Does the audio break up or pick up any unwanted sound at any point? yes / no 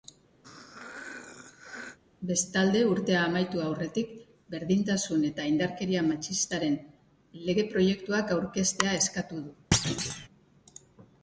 yes